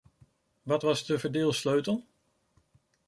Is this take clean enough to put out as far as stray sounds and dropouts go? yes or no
yes